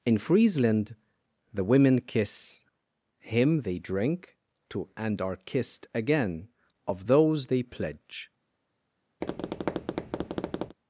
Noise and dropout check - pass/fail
fail